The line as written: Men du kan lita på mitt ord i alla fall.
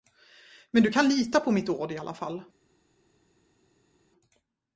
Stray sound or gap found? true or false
false